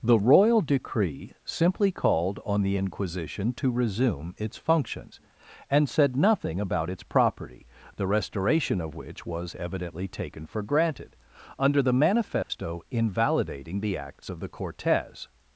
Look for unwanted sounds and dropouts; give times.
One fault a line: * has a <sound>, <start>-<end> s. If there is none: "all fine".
* has a dropout, 12.4-12.5 s